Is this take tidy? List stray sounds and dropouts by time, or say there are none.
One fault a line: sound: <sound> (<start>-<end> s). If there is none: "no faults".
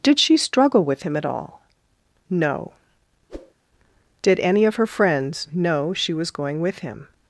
sound: whoosh (3.3-3.5 s)